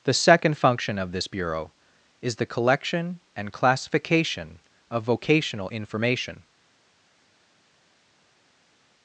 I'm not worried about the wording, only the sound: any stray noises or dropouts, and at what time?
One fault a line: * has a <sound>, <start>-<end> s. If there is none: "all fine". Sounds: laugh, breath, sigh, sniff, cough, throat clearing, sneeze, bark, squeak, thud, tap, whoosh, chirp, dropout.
all fine